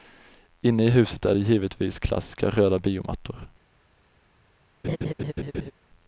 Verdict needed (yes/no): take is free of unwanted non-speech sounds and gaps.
no